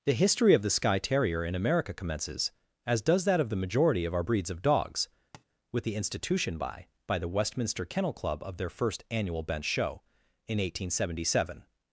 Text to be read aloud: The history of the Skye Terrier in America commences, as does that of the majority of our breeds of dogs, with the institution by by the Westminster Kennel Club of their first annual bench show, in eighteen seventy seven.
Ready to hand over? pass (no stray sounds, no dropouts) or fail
fail